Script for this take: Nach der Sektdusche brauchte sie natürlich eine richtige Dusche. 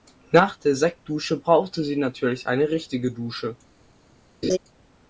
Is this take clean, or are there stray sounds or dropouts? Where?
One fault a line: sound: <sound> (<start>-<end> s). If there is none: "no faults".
sound: laugh (4.4-4.6 s)